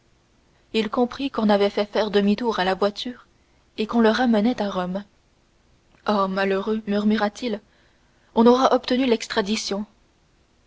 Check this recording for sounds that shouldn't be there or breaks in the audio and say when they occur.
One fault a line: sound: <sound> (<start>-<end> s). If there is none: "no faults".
no faults